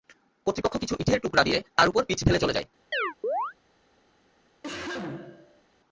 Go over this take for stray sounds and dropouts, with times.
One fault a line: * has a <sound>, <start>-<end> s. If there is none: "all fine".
* has a chirp, 2.9-3.5 s
* has a cough, 4.6-5.6 s